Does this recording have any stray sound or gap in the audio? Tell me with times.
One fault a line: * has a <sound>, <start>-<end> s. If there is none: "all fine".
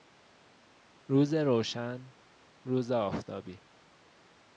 all fine